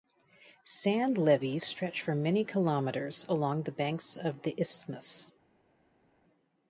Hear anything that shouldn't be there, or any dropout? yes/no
no